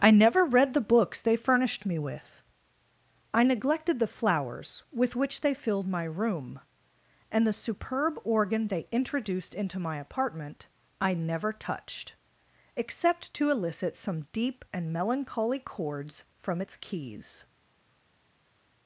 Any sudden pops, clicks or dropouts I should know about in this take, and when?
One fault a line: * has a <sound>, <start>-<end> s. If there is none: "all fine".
all fine